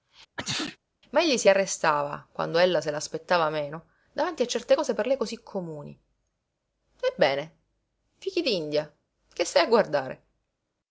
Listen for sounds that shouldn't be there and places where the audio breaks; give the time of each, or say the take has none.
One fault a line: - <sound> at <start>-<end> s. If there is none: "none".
- sneeze at 0.4-0.8 s